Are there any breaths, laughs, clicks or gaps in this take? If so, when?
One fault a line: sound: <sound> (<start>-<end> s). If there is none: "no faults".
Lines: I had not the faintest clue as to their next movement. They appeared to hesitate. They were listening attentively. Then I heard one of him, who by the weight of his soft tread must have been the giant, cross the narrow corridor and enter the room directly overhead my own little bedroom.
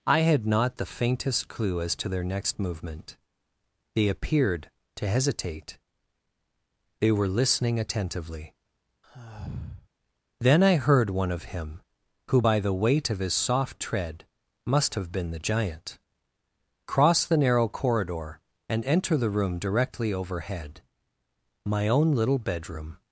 sound: sigh (9.0-9.9 s)